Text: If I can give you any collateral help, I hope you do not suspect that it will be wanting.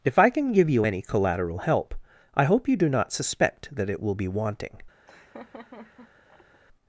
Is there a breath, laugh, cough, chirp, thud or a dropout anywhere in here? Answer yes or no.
yes